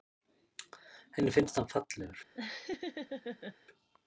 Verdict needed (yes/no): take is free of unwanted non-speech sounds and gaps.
no